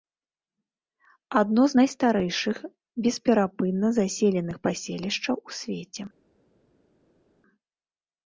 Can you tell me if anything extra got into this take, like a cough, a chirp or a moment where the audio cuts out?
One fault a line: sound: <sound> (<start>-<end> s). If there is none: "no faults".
no faults